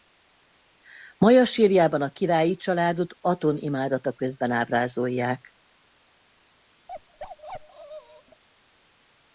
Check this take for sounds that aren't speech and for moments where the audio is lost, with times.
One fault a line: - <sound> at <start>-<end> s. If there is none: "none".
- bark at 6.9-8.4 s